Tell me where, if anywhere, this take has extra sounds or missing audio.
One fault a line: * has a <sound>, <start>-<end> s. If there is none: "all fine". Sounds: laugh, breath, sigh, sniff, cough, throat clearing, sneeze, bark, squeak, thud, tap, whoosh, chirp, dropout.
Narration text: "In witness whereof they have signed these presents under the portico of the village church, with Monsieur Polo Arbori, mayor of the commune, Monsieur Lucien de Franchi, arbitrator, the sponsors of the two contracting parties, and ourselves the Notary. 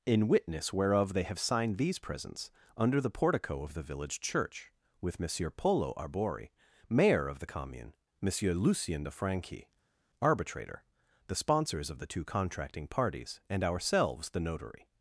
all fine